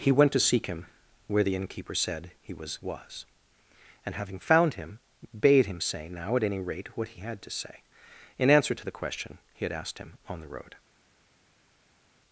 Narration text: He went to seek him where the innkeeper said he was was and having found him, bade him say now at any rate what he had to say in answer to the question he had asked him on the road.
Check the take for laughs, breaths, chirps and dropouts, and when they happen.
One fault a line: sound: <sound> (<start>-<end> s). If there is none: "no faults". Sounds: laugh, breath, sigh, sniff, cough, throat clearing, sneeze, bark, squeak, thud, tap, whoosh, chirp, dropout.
no faults